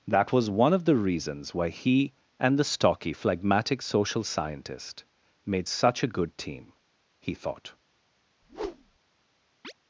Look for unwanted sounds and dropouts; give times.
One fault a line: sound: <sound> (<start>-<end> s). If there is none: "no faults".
sound: whoosh (8.4-9.0 s)
sound: chirp (9.6-9.7 s)